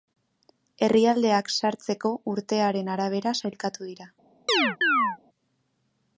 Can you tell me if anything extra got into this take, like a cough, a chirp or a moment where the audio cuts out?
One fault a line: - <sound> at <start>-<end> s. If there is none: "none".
- chirp at 4.5-5.2 s